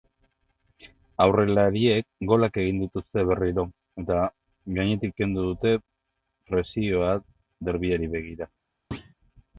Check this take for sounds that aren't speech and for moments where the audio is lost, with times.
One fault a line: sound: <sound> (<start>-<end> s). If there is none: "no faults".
sound: thud (8.9-9.1 s)